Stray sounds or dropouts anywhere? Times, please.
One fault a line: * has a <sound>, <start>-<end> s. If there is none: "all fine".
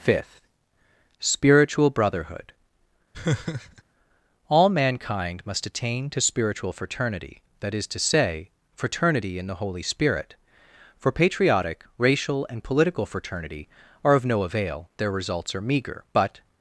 * has a laugh, 3.1-3.8 s